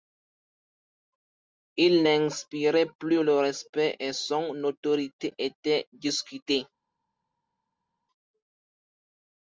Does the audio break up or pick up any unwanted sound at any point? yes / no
no